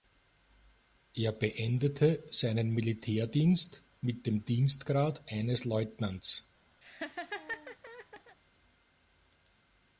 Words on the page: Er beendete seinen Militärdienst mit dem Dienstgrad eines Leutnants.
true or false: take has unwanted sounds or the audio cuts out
true